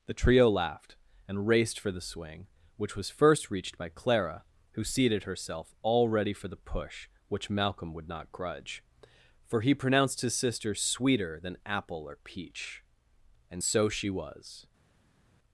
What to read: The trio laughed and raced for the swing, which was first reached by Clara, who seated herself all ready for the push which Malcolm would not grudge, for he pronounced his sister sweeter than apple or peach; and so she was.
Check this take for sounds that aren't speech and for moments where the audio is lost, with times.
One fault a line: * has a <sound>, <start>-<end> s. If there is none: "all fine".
all fine